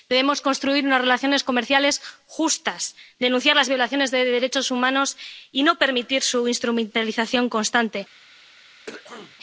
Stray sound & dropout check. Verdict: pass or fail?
fail